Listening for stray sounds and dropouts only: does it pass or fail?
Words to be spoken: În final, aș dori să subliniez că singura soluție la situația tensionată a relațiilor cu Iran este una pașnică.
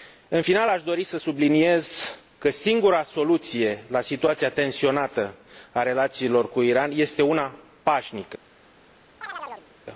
fail